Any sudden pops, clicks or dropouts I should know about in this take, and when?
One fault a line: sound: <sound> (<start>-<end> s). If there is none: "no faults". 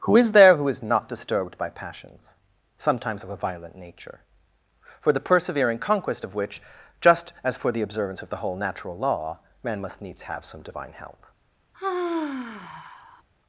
sound: sigh (11.7-13.2 s)